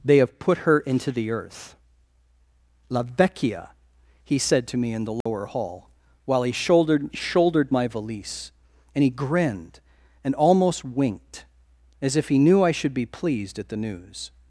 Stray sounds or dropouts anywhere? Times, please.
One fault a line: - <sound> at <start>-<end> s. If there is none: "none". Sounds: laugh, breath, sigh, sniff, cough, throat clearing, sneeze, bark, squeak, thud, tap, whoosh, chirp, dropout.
- dropout at 5.2-5.3 s